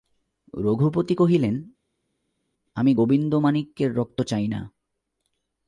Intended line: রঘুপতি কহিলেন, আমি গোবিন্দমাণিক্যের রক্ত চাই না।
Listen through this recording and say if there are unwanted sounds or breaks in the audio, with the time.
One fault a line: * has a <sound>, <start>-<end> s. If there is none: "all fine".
all fine